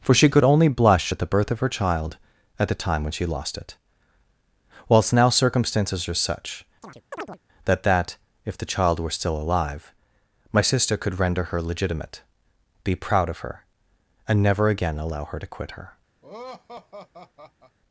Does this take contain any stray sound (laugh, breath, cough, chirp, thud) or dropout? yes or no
yes